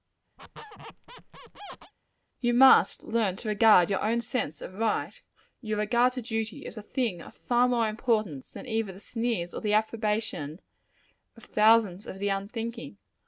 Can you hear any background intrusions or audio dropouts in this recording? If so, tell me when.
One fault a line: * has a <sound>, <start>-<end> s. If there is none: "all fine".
* has a squeak, 0.4-1.9 s